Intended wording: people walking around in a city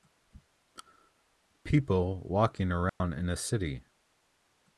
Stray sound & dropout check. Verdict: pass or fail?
fail